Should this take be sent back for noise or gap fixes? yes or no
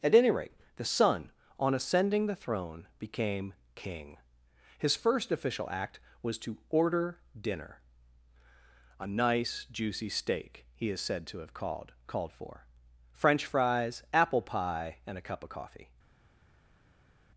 no